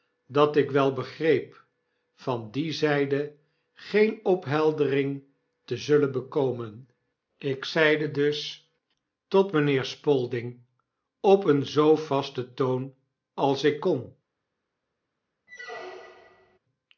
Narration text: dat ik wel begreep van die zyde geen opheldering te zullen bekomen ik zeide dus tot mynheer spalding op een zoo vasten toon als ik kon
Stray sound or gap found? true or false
true